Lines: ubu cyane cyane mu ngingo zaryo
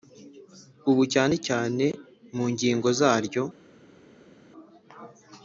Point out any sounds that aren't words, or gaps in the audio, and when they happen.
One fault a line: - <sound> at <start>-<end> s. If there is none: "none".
none